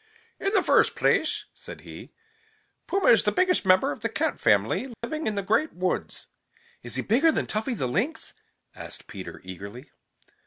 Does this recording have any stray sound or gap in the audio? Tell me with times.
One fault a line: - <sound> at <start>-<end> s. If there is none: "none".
- dropout at 4.9-5.0 s